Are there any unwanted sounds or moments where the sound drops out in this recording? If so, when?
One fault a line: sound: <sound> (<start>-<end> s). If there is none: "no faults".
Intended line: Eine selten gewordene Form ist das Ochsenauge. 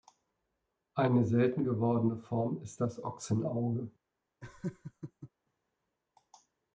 sound: laugh (4.4-5.3 s)